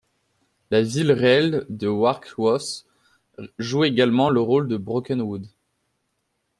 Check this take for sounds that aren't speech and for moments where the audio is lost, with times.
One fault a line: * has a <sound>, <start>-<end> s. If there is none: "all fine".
all fine